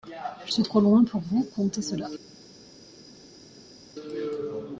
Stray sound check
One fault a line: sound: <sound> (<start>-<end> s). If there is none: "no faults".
no faults